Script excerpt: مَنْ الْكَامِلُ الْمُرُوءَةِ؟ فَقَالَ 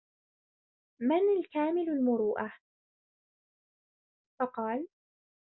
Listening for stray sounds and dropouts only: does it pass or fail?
pass